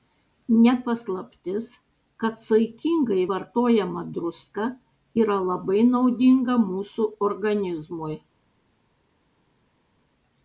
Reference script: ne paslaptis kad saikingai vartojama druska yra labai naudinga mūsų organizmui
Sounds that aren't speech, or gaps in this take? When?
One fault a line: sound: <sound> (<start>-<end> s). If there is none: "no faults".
no faults